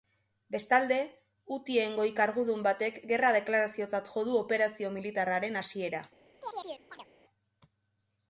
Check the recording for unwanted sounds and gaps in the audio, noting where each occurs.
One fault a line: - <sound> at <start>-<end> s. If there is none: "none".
- chirp at 6.4-7.1 s